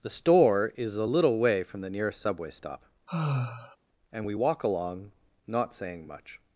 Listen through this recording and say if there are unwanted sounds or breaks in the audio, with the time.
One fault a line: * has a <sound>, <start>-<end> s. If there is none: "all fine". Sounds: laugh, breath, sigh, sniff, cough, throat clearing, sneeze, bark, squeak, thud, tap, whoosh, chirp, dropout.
* has a sigh, 3.1-3.8 s